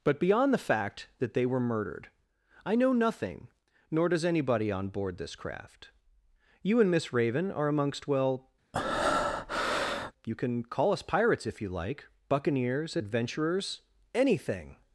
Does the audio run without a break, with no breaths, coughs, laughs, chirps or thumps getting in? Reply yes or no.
no